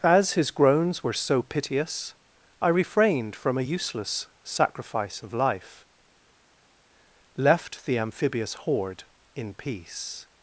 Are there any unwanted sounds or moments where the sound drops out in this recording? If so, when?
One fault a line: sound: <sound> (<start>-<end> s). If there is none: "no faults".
no faults